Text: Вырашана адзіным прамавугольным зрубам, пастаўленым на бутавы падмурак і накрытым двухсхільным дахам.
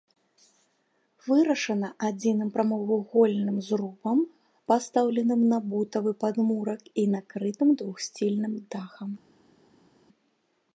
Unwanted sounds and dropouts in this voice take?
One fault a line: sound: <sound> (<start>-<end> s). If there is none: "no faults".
no faults